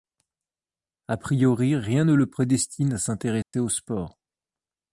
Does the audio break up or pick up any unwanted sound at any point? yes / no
yes